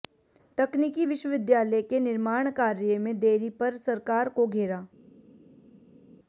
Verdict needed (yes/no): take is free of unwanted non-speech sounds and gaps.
yes